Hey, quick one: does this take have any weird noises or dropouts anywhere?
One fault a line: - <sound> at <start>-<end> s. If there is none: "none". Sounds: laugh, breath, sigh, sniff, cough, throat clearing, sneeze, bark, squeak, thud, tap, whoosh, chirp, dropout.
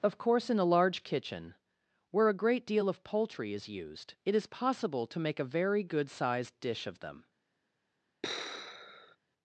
- sigh at 8.2-9.2 s